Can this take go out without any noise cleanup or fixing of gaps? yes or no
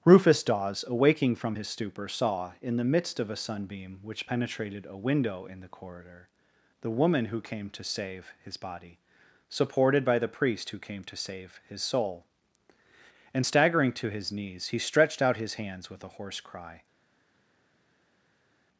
yes